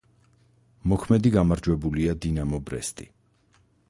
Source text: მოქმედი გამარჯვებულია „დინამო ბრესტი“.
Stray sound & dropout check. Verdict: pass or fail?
pass